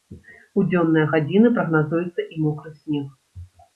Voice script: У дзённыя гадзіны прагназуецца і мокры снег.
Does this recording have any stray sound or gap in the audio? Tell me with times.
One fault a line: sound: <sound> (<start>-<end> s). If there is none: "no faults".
no faults